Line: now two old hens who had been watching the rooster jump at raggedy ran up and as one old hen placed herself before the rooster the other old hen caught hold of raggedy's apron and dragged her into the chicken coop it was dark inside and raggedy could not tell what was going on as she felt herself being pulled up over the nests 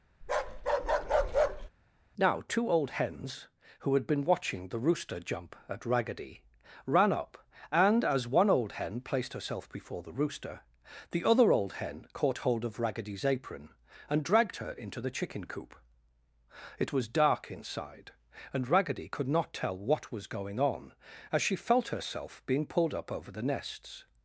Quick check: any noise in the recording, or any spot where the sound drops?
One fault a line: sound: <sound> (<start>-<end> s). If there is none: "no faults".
sound: bark (0.2-1.7 s)